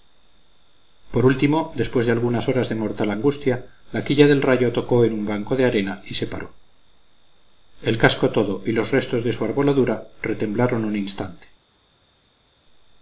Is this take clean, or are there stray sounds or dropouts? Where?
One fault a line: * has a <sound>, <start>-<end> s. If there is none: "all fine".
all fine